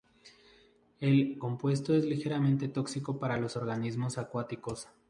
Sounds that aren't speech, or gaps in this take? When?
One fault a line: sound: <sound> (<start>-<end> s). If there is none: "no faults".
no faults